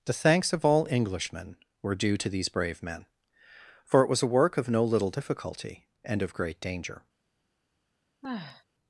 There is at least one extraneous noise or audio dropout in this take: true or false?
true